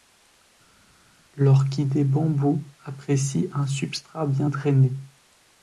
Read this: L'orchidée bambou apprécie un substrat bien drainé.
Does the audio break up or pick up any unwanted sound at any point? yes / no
no